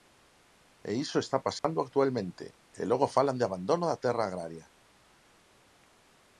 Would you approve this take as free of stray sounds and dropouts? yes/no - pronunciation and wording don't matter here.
no